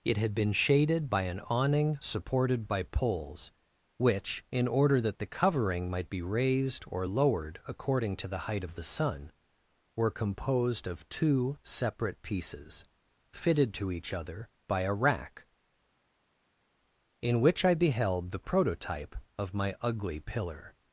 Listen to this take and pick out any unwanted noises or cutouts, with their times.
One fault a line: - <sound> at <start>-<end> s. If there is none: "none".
none